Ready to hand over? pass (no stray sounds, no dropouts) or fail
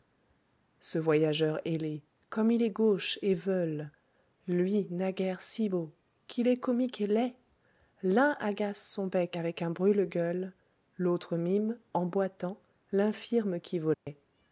fail